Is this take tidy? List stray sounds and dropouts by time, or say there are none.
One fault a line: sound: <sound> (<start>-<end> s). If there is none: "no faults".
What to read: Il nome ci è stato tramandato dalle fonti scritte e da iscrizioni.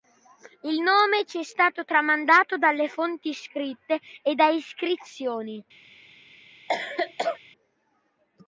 sound: cough (6.7-7.4 s)